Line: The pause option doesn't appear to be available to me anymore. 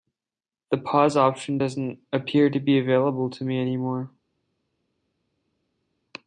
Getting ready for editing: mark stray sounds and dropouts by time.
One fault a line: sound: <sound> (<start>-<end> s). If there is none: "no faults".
no faults